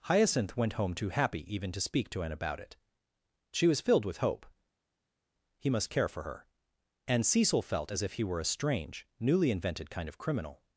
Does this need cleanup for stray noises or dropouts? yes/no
no